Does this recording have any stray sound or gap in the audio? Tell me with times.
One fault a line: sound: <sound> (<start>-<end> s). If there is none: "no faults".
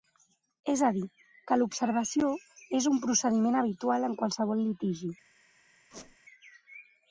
sound: squeak (5.9-6.2 s)